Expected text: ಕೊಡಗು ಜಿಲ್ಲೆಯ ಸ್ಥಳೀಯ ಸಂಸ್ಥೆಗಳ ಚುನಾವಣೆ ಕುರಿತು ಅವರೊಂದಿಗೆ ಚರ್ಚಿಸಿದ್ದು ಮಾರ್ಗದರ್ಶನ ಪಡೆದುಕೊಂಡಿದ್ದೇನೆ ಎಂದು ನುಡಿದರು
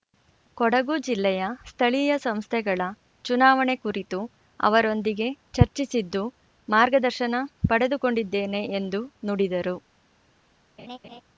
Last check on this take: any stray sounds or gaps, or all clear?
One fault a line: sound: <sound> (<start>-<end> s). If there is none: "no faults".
sound: laugh (10.8-11.2 s)